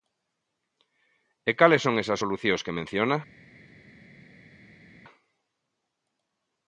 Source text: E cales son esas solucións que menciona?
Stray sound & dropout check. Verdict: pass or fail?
pass